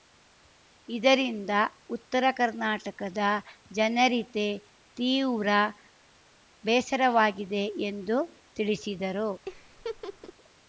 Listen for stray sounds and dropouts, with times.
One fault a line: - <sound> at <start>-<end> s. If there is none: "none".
- laugh at 9.5-10.3 s